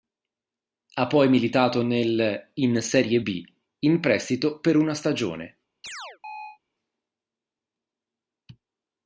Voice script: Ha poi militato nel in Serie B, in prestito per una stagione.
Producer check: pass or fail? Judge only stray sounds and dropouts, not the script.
fail